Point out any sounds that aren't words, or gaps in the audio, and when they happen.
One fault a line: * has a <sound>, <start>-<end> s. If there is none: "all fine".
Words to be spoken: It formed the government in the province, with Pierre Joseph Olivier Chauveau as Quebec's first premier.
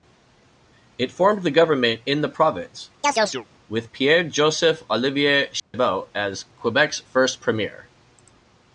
* has a chirp, 3.0-3.5 s
* has a dropout, 5.6-5.7 s